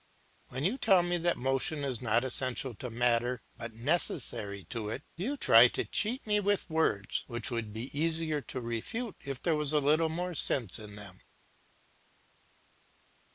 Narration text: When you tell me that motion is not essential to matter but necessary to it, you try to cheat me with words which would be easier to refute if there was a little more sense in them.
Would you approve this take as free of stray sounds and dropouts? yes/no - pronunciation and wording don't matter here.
yes